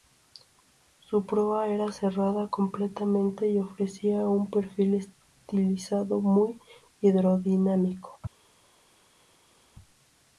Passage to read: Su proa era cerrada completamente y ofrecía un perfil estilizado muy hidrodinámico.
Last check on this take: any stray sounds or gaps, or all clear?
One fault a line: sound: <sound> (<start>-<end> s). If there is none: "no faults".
no faults